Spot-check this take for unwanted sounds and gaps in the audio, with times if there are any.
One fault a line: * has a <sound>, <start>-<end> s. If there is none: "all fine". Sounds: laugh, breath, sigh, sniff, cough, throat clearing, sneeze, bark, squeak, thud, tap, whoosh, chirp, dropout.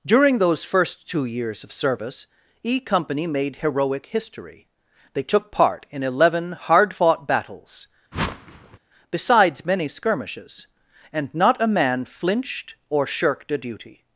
* has a whoosh, 8.1-8.8 s